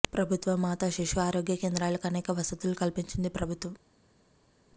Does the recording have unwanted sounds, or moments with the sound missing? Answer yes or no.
no